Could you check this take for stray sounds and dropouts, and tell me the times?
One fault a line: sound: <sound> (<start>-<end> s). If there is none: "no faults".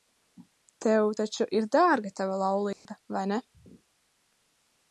sound: dropout (2.7-2.9 s)